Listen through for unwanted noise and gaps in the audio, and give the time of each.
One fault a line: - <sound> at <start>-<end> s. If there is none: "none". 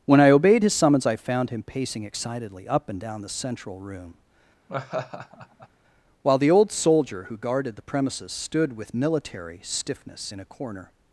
- laugh at 4.7-5.7 s